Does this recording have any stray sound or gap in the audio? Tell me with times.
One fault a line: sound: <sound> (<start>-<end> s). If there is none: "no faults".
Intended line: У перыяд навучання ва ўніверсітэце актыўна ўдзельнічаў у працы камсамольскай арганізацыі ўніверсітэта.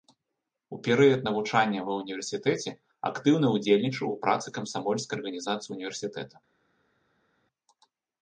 no faults